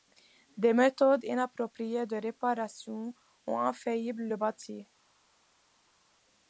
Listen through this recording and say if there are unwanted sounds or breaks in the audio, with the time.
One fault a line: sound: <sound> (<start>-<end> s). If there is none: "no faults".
no faults